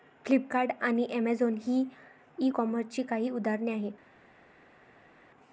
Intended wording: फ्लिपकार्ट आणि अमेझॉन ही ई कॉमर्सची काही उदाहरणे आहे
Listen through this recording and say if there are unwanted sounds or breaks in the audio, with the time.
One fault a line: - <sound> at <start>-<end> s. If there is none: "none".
none